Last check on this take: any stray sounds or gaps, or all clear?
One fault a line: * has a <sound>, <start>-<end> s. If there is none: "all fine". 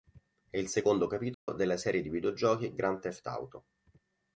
* has a dropout, 1.3-1.5 s